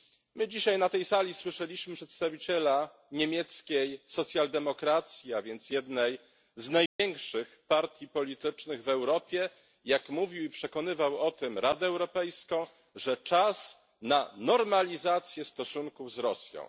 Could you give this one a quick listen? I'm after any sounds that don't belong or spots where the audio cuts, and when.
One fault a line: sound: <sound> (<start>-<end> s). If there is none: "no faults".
sound: dropout (6.9-7.0 s)